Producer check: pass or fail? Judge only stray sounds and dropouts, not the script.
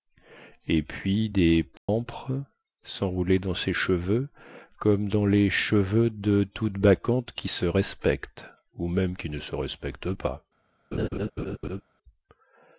fail